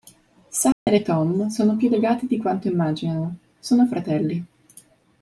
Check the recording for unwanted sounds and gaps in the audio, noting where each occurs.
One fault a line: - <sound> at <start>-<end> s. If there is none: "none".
- dropout at 0.7-0.9 s